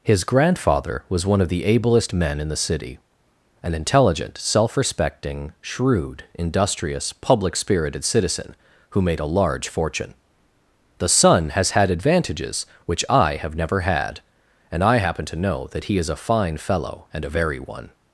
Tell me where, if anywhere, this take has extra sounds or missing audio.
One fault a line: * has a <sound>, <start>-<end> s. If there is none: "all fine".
all fine